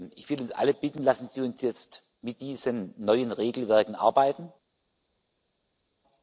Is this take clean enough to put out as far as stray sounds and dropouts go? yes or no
yes